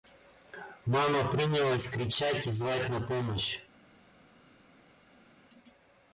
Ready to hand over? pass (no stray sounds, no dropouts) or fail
pass